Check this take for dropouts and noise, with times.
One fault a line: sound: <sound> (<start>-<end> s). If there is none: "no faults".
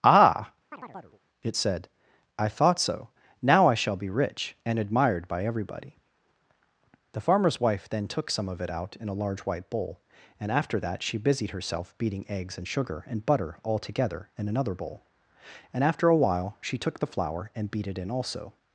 sound: chirp (0.7-1.2 s)